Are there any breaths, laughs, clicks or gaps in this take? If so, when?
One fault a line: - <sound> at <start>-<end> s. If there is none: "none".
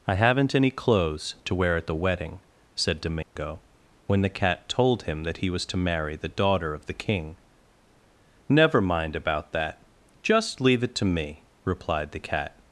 - dropout at 3.2-3.4 s